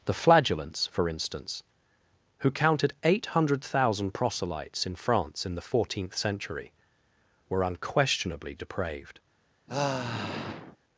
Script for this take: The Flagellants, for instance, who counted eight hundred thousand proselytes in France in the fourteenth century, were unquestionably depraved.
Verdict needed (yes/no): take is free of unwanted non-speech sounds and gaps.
no